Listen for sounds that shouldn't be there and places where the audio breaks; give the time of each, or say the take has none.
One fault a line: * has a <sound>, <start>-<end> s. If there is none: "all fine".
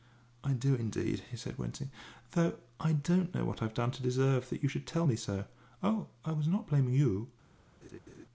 * has a laugh, 7.8-8.3 s